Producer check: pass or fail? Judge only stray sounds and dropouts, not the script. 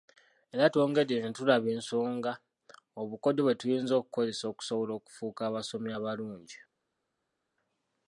pass